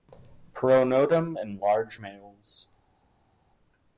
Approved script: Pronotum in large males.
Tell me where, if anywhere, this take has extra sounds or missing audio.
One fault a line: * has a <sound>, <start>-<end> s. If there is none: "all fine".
all fine